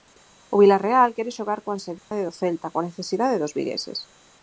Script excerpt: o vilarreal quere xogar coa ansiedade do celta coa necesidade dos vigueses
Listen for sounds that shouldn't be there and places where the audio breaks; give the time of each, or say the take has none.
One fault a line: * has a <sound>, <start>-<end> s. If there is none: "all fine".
* has a dropout, 2.0-2.1 s